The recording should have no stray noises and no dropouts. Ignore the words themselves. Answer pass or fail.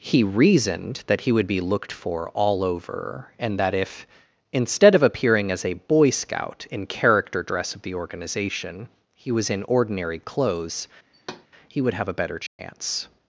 fail